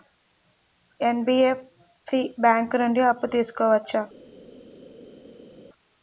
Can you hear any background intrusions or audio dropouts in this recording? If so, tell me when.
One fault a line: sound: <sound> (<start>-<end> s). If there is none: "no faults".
no faults